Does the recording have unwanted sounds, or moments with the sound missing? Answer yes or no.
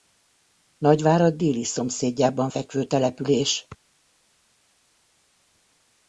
no